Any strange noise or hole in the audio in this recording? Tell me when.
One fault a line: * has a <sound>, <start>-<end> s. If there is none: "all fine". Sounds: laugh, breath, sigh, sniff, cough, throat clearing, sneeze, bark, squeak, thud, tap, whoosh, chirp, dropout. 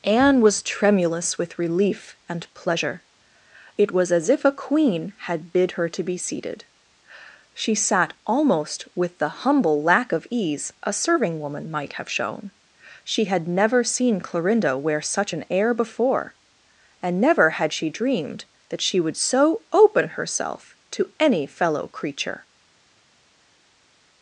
all fine